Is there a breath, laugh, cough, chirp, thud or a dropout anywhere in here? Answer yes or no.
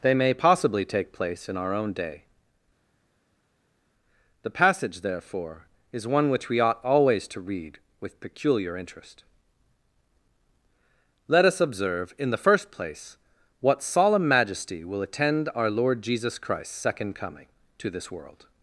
no